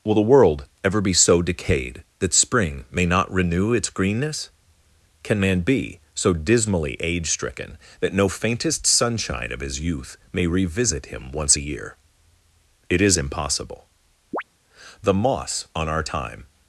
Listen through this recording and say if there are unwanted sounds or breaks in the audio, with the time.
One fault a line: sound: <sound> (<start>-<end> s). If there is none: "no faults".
sound: chirp (14.3-14.4 s)